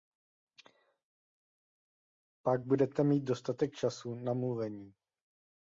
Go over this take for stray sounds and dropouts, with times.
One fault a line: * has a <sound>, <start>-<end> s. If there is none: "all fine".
all fine